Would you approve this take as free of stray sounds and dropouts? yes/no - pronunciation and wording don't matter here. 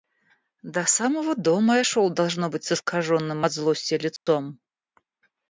no